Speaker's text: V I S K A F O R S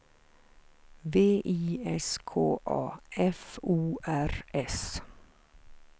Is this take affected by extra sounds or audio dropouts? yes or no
no